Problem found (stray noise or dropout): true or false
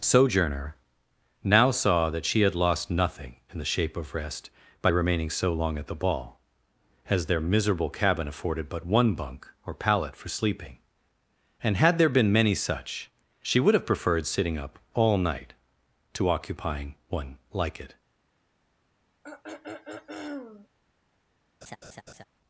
true